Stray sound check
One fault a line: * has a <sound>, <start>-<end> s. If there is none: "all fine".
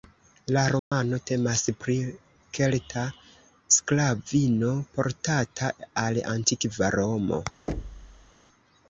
* has a dropout, 0.8-0.9 s
* has a thud, 7.7-8.3 s